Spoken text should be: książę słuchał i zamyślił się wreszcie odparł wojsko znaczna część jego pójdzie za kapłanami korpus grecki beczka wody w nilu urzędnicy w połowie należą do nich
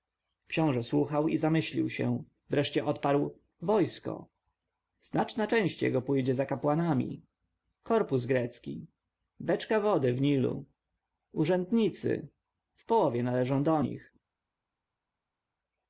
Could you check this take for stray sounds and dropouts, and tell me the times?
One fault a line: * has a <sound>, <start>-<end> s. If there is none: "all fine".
all fine